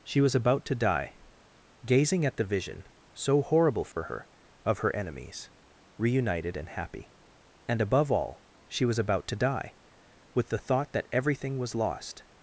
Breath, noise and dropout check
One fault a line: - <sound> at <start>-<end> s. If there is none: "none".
- dropout at 3.9-4.0 s